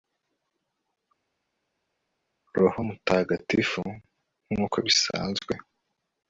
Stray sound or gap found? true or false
false